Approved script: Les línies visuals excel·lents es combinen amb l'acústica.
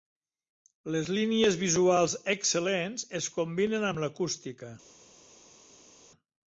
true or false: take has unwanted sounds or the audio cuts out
false